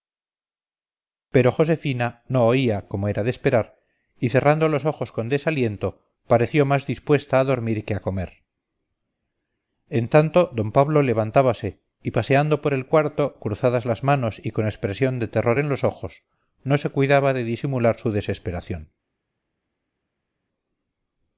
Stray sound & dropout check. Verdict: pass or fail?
pass